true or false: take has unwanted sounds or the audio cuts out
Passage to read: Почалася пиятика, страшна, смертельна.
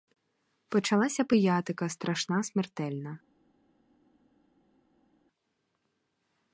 false